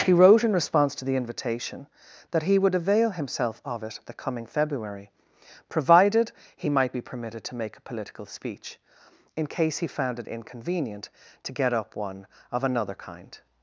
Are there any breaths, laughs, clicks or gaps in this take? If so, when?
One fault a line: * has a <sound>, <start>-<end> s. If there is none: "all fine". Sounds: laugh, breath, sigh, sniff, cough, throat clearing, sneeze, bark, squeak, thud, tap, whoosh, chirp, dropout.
all fine